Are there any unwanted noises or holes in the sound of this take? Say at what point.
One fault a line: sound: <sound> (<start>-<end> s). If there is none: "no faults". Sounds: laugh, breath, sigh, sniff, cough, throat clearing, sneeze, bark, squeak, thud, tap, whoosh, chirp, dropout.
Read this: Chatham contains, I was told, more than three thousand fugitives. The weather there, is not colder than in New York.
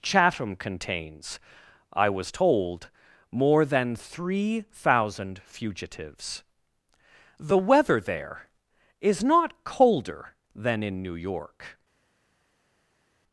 no faults